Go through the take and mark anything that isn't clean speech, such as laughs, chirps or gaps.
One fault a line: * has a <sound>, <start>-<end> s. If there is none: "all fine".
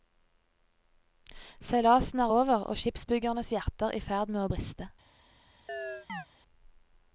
* has a chirp, 5.7-6.3 s